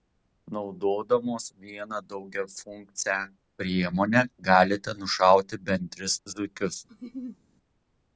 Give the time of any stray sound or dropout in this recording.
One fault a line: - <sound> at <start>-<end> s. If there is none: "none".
- laugh at 6.9-7.4 s